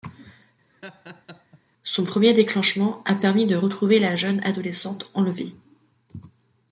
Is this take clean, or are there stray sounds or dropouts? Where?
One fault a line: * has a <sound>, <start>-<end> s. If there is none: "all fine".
* has a laugh, 0.7-1.6 s